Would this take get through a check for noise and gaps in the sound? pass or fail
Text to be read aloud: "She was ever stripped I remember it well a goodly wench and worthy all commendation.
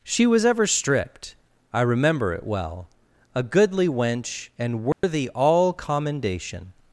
fail